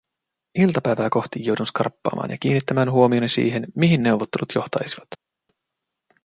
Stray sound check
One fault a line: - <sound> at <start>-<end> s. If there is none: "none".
none